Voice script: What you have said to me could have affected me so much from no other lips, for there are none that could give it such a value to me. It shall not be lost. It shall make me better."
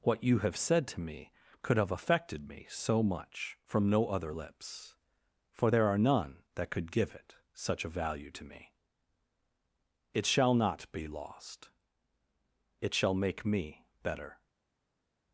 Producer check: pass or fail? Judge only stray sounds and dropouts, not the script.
pass